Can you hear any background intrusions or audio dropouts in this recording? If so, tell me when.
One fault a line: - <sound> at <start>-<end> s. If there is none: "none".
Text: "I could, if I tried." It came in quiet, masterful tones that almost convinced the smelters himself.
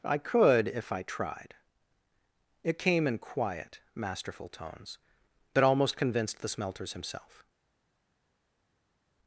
none